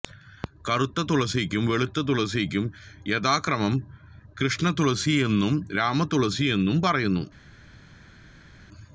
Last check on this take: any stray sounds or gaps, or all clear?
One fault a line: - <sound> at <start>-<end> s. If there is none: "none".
none